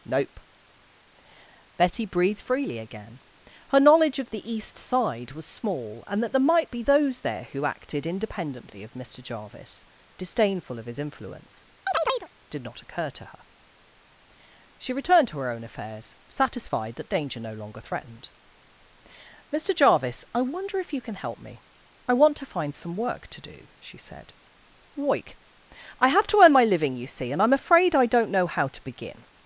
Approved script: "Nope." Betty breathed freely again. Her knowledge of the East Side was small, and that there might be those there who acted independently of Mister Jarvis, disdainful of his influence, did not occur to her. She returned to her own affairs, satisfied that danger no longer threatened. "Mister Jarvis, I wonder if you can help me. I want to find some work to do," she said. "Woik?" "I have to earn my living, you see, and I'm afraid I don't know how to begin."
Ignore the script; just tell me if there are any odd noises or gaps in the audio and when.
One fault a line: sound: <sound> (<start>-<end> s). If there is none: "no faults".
sound: chirp (11.9-12.3 s)